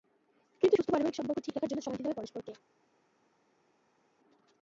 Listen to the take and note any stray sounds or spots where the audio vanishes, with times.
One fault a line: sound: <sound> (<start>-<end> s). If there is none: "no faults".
no faults